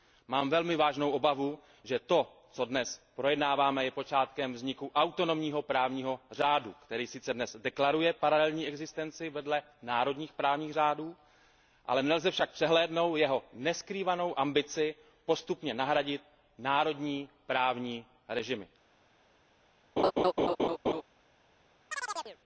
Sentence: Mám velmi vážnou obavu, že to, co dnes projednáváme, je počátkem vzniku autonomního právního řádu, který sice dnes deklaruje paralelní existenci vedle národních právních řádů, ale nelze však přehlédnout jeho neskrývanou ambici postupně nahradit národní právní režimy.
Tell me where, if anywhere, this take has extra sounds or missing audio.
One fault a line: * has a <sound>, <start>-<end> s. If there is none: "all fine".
* has a laugh, 20.0-21.0 s
* has a chirp, 21.9-22.4 s